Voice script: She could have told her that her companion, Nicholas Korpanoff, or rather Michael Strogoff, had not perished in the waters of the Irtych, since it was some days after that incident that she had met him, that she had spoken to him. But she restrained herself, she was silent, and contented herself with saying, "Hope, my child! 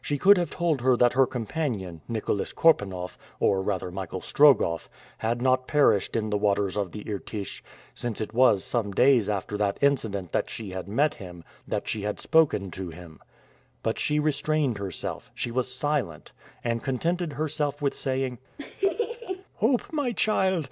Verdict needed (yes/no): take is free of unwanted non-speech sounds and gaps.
no